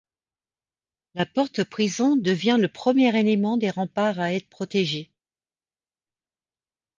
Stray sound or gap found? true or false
false